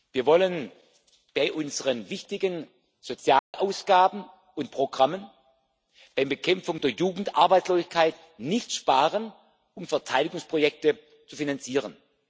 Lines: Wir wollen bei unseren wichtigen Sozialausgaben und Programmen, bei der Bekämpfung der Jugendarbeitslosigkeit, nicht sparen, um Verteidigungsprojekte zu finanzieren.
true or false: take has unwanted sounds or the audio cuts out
true